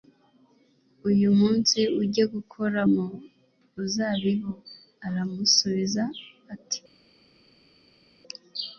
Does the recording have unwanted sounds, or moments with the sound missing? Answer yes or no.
no